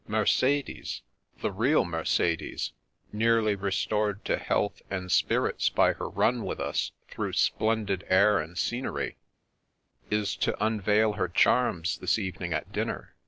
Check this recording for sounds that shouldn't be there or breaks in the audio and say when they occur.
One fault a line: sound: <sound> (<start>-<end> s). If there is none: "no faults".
no faults